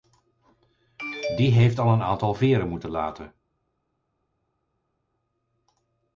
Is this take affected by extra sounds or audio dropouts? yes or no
no